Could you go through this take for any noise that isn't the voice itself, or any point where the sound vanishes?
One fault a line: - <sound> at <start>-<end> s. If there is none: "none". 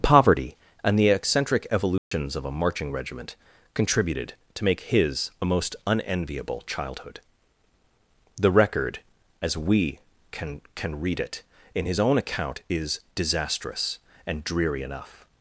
- dropout at 2.0-2.1 s